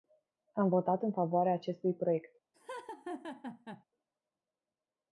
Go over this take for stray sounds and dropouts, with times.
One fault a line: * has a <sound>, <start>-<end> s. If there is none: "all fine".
* has a laugh, 2.5-3.8 s